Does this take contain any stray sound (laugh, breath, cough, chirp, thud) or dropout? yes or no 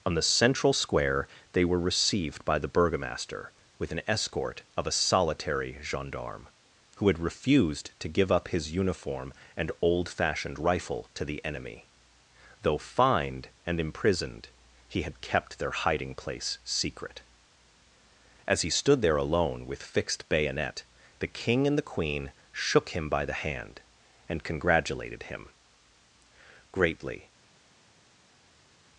no